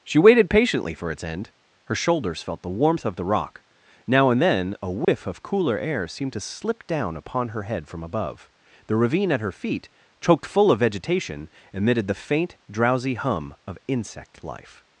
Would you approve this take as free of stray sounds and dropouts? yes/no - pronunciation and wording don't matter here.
no